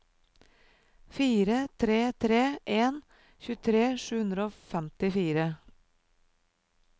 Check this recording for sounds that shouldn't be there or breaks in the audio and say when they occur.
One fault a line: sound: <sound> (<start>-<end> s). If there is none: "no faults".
no faults